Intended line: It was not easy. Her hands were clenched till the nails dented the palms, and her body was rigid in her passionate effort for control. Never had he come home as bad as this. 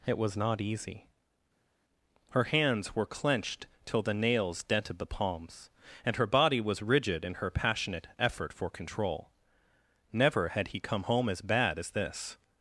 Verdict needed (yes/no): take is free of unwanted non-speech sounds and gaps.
yes